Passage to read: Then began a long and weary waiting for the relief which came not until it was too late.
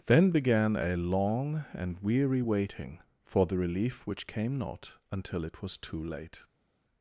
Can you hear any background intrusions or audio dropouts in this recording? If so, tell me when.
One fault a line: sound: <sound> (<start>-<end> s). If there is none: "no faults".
no faults